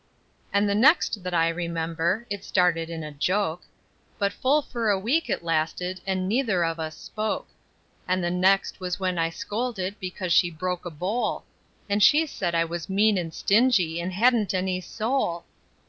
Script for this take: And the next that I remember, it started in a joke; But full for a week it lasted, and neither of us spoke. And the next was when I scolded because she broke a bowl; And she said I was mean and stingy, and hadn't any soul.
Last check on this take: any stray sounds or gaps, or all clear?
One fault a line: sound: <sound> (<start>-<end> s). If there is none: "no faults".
no faults